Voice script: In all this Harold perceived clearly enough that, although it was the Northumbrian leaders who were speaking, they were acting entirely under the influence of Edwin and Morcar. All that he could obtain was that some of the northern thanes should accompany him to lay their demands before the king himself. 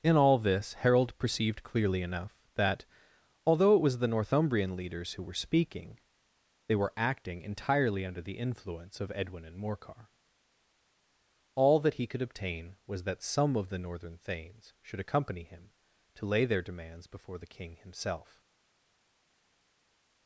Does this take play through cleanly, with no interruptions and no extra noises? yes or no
yes